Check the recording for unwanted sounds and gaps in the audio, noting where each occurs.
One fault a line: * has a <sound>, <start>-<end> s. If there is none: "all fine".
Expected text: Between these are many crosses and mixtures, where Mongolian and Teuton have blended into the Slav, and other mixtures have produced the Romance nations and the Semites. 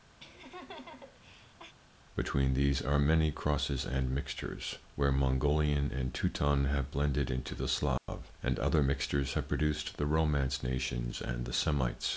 * has a laugh, 0.2-1.7 s
* has a dropout, 8.0-8.1 s